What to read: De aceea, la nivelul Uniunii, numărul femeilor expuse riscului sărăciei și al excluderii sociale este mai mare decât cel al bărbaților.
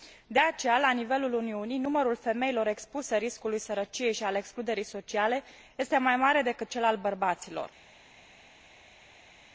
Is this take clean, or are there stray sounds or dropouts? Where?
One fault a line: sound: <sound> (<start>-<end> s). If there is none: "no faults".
no faults